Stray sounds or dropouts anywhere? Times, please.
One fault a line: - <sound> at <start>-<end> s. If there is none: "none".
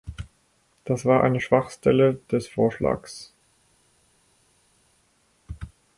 none